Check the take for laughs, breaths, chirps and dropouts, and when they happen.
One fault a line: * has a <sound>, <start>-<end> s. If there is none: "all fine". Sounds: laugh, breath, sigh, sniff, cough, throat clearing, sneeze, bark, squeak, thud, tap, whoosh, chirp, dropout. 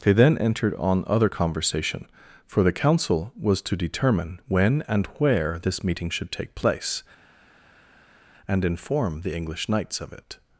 all fine